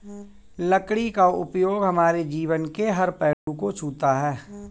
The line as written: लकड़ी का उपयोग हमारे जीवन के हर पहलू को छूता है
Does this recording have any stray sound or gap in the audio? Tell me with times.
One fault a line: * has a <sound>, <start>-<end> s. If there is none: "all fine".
* has a dropout, 3.3-3.5 s